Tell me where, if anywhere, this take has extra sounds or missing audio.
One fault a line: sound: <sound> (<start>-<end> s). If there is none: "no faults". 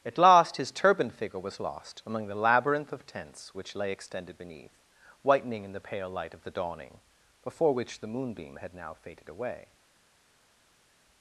no faults